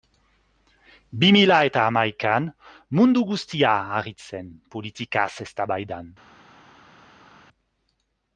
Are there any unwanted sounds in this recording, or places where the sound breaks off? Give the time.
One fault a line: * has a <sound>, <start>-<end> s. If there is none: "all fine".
all fine